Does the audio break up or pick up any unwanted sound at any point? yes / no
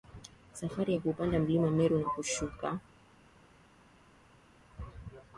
no